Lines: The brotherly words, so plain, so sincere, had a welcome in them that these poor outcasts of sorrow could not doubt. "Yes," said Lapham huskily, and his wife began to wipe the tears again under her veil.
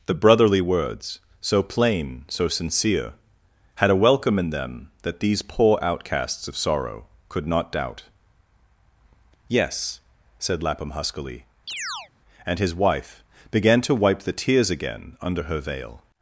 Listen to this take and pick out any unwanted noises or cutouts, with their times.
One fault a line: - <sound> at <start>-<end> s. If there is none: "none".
- chirp at 11.7-12.1 s